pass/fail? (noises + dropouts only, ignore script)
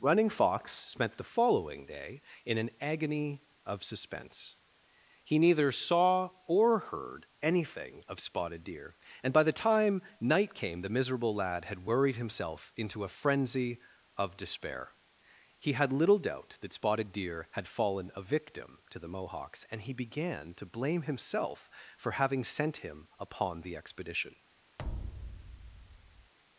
fail